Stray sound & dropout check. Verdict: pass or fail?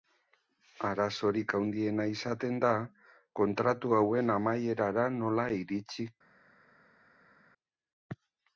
pass